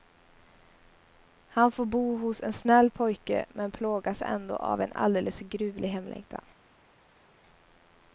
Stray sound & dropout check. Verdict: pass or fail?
pass